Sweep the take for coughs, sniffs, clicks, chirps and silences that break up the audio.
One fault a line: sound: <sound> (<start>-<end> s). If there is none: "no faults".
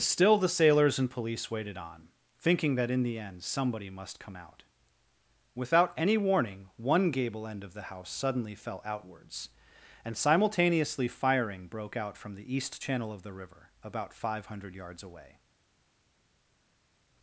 no faults